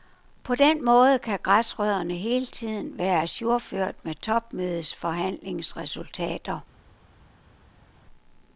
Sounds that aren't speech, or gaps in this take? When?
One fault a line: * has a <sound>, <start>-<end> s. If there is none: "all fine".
all fine